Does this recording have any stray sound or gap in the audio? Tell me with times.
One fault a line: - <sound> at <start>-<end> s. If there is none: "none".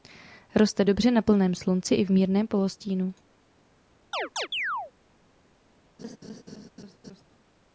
- chirp at 4.1-4.9 s
- laugh at 6.0-7.3 s